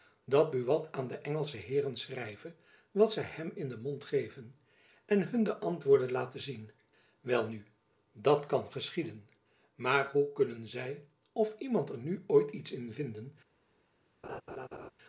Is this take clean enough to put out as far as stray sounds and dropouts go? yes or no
no